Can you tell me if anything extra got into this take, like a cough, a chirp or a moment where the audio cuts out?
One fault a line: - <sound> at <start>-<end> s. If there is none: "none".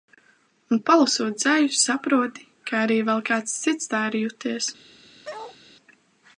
- bark at 5.2-5.6 s